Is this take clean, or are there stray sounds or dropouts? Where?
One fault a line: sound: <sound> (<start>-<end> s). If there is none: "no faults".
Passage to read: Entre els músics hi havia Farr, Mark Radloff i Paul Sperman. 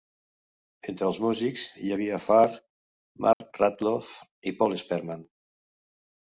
sound: dropout (3.3-3.4 s)